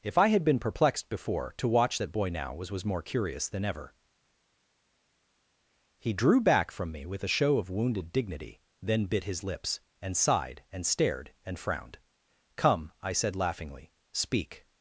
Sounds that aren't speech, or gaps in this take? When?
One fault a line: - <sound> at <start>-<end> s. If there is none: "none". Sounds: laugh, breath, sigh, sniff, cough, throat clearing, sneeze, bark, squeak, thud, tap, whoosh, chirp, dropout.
none